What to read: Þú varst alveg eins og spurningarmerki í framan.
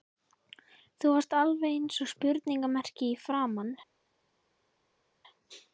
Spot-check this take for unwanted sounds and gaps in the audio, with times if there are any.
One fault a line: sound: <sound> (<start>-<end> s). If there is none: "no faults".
no faults